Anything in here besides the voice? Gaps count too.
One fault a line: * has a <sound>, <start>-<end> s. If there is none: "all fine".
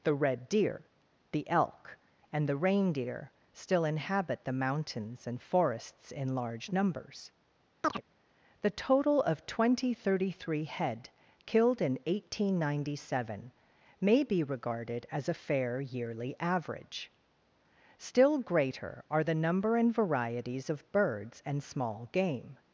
* has a chirp, 7.8-8.0 s